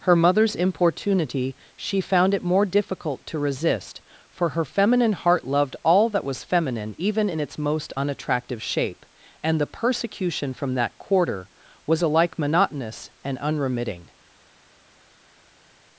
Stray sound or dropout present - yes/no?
no